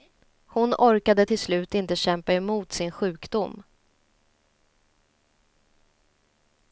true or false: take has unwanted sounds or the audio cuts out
false